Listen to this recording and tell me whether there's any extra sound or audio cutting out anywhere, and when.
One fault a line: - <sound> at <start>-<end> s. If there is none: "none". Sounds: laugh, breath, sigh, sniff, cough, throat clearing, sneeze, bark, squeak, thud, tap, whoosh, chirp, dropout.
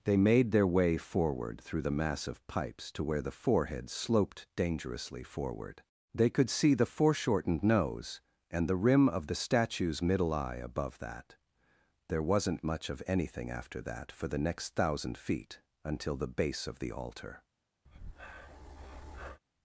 - breath at 17.8-19.4 s